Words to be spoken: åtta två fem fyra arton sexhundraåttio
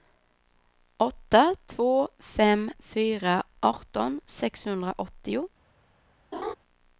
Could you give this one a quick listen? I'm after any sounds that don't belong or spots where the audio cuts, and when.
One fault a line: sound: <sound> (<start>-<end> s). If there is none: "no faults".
sound: laugh (6.3-6.5 s)